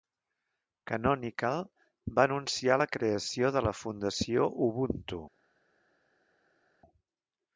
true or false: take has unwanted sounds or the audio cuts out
false